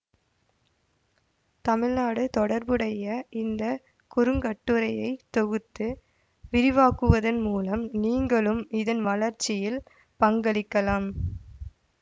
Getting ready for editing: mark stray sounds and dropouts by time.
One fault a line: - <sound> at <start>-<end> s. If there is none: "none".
none